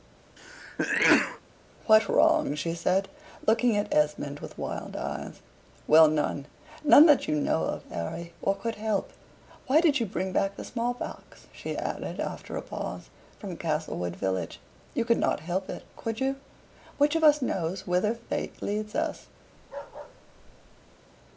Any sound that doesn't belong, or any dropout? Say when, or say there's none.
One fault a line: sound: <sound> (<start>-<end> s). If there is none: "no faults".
sound: sneeze (0.4-1.4 s)
sound: bark (19.6-21.0 s)